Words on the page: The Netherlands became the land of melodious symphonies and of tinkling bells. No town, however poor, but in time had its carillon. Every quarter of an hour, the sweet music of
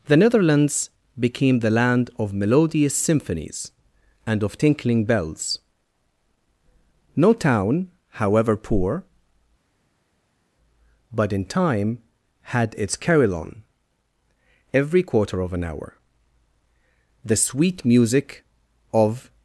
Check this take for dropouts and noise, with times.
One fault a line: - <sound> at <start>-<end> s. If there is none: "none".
none